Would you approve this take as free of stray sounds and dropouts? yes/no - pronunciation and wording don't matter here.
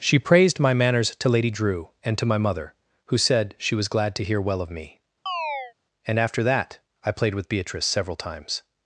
no